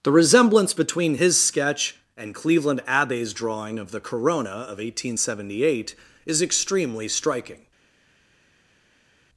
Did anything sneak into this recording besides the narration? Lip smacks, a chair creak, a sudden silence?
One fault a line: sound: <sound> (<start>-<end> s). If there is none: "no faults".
no faults